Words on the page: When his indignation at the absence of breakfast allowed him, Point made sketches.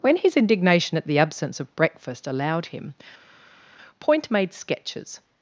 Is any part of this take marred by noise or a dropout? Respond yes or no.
no